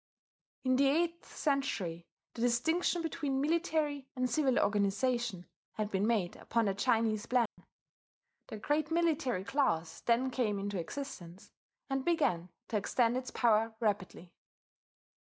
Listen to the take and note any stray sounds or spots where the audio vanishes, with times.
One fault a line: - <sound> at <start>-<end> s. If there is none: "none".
- dropout at 7.5-7.6 s